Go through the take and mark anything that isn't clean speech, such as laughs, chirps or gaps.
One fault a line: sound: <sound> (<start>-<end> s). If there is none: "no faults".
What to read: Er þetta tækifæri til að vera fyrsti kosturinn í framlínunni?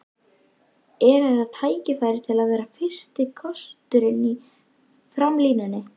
no faults